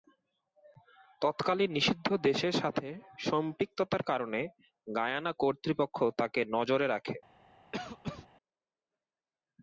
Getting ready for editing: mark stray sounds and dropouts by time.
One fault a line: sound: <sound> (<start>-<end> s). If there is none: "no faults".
sound: cough (7.7-8.3 s)